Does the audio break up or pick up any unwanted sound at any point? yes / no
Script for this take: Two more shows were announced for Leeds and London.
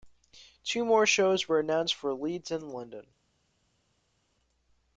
no